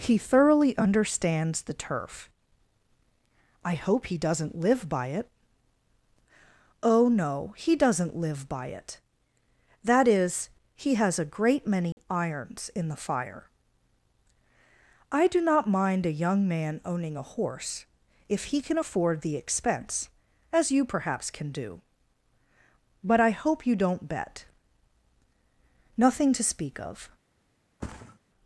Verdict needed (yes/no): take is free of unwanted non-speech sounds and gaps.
no